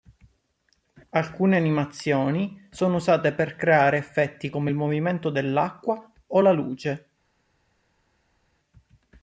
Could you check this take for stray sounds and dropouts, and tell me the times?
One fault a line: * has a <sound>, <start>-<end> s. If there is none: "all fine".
all fine